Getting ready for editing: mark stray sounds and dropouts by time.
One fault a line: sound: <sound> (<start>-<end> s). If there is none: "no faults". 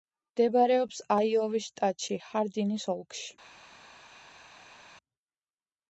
no faults